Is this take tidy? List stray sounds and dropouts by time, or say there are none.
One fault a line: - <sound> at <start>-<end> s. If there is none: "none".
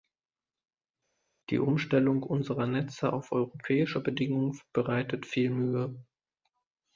none